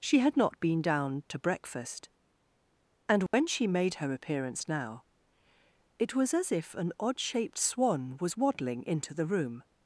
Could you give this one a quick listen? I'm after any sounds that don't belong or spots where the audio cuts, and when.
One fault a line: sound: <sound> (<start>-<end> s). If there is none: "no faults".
sound: dropout (3.3-3.3 s)